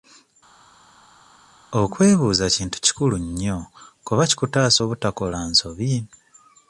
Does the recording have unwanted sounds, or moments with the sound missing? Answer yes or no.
no